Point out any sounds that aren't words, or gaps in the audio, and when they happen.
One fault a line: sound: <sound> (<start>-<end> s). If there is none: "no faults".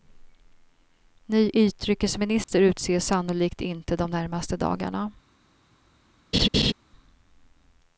sound: dropout (2.4-2.5 s)
sound: laugh (6.3-6.7 s)